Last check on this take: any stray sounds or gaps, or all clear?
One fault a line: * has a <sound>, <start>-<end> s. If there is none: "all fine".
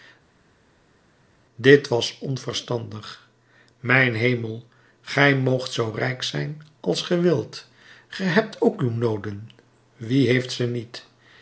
all fine